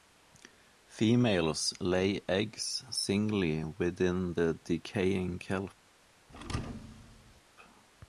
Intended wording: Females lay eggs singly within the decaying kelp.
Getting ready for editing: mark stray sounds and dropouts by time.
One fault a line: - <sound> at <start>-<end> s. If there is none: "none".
- thud at 6.3-7.4 s